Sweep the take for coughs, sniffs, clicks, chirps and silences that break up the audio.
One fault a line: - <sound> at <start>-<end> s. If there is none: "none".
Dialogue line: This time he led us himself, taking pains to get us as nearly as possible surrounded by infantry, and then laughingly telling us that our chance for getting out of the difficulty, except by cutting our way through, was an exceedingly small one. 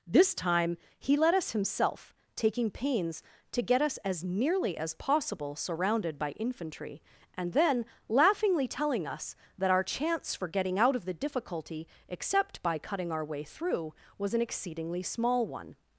none